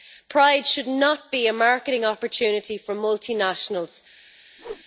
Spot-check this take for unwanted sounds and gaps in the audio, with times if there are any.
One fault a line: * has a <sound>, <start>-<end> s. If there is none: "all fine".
* has a whoosh, 4.6-4.8 s